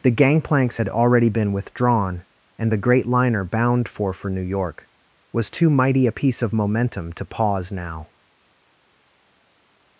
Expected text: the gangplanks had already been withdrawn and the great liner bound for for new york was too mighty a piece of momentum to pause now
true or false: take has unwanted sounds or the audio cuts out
false